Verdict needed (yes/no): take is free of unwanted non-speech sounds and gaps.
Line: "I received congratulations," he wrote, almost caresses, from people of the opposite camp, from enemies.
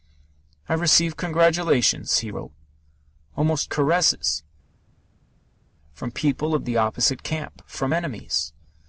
yes